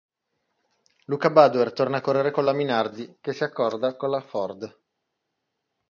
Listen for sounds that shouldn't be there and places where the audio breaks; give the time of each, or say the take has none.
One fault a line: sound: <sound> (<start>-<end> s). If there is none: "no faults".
no faults